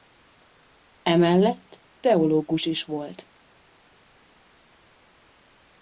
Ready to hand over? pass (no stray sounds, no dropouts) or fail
pass